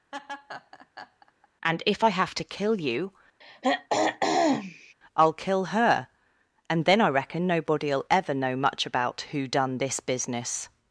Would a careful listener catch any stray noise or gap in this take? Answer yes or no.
yes